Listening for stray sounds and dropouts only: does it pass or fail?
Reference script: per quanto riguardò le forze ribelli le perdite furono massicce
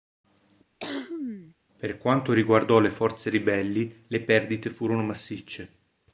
fail